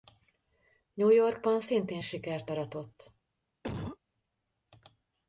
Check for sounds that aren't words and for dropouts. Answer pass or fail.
fail